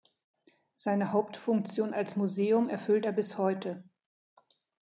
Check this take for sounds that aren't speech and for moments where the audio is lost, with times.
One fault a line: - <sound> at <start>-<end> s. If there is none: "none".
none